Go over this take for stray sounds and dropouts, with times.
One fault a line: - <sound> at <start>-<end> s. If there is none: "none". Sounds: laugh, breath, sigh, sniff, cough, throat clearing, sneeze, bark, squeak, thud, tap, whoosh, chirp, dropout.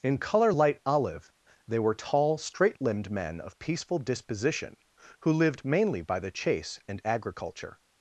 none